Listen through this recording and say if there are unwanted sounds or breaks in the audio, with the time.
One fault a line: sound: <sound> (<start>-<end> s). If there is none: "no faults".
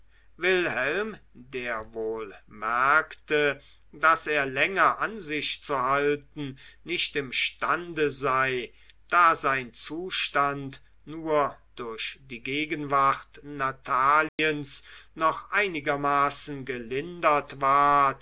sound: dropout (14.3-14.4 s)